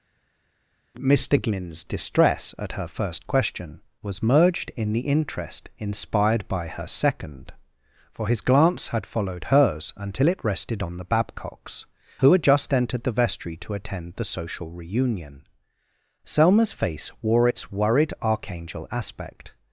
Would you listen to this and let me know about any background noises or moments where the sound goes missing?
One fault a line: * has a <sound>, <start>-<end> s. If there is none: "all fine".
all fine